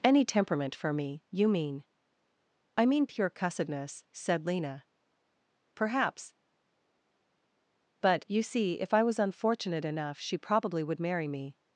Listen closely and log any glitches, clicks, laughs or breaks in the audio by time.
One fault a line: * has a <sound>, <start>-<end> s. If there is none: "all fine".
all fine